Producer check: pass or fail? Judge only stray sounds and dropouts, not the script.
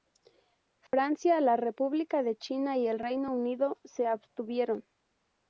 fail